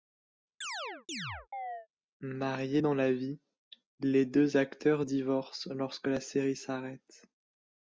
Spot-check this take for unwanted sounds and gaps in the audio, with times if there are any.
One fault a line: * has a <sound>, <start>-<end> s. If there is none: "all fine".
* has a chirp, 0.6-1.9 s